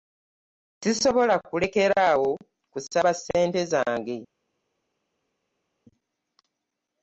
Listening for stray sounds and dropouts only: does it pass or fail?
pass